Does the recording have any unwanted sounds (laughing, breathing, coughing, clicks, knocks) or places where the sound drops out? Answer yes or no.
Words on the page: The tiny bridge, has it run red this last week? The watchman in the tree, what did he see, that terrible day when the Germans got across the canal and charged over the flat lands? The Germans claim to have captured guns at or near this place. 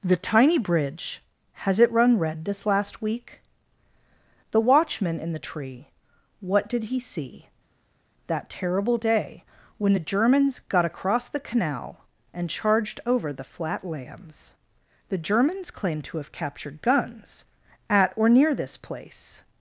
no